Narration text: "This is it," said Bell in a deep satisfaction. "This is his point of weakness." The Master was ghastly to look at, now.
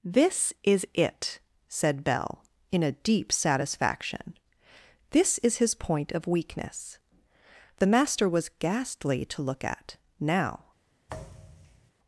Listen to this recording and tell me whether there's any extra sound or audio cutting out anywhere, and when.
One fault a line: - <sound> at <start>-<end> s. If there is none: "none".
- thud at 11.1-11.9 s